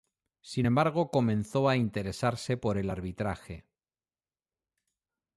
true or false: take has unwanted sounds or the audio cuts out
false